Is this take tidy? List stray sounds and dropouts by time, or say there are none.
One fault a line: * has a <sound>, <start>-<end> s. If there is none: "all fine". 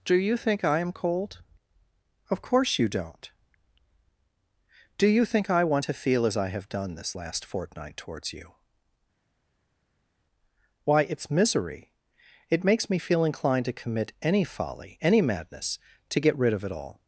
all fine